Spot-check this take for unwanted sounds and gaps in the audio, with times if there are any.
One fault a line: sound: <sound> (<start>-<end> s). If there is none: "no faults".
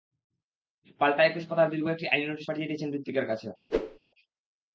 sound: whoosh (3.7-4.0 s)